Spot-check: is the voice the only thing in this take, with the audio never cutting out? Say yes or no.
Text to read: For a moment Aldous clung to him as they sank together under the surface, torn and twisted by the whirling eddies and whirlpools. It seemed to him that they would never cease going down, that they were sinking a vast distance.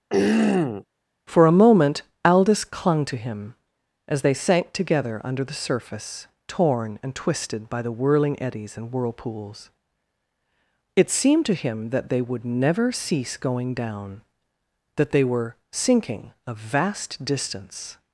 no